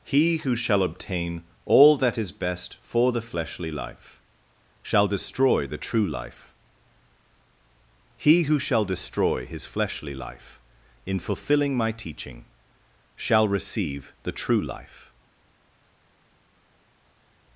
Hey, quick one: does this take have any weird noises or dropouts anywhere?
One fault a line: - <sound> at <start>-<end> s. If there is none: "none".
none